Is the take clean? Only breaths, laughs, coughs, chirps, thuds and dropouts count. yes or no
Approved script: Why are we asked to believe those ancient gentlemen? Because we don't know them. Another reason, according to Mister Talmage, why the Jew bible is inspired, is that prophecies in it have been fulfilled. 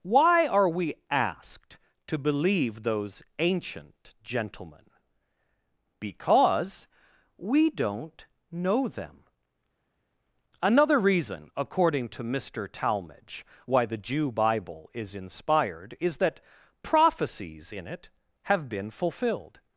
yes